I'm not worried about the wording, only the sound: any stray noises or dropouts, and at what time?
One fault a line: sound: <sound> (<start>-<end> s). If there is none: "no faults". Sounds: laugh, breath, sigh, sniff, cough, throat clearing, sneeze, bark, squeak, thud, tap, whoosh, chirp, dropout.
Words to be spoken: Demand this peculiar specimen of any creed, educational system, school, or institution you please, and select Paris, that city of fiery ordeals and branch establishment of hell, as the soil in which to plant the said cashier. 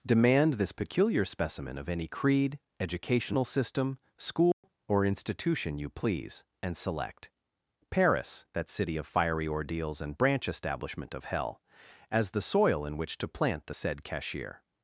sound: dropout (4.5-4.6 s)